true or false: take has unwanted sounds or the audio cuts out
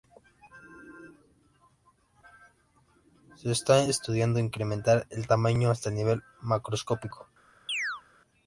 true